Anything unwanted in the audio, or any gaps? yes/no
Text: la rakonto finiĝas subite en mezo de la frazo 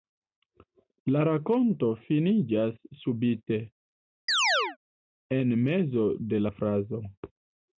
yes